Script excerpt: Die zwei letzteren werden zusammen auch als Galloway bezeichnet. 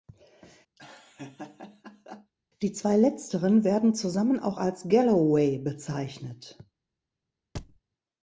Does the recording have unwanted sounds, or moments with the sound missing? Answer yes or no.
yes